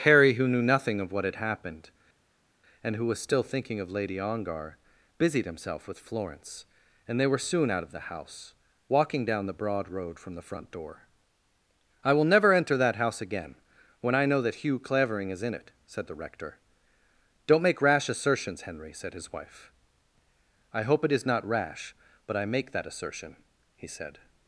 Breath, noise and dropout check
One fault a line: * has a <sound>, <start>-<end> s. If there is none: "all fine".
all fine